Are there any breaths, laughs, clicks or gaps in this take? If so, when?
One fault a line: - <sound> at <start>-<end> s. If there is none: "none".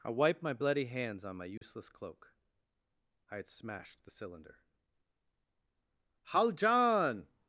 - dropout at 1.6-1.6 s